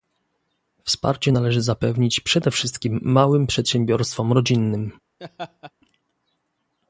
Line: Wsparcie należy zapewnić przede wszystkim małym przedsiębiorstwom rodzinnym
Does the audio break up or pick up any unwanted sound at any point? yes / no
yes